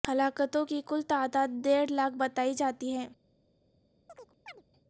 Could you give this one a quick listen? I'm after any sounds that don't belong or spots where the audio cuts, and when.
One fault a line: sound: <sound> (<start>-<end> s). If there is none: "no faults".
sound: chirp (4.1-4.6 s)